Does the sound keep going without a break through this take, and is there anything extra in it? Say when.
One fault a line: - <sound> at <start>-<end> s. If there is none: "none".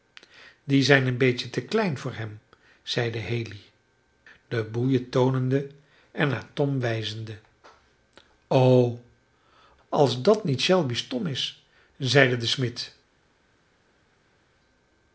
none